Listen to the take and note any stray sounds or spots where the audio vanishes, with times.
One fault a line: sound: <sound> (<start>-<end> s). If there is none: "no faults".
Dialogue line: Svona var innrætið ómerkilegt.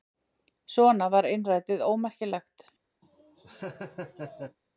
sound: laugh (3.0-4.6 s)